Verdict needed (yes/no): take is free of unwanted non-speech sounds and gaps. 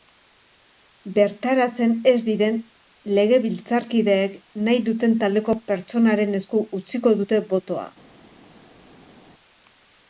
yes